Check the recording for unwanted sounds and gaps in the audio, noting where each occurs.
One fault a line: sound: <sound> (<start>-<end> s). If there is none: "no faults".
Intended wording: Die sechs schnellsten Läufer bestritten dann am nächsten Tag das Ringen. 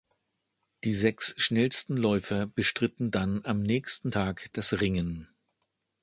no faults